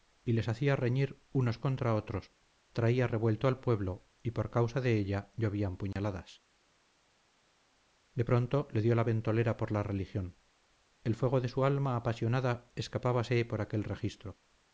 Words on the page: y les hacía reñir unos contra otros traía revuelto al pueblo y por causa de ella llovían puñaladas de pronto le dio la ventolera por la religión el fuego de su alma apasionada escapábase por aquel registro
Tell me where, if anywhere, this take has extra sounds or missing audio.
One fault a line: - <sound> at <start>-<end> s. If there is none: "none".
- dropout at 5.9-6.0 s